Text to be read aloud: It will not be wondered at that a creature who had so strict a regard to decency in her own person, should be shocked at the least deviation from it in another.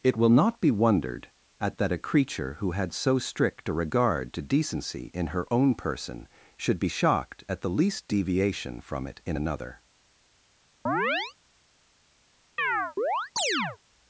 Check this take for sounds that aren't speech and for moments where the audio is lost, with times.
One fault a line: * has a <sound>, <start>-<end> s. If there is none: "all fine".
* has a chirp, 10.9-11.3 s
* has a chirp, 12.6-13.8 s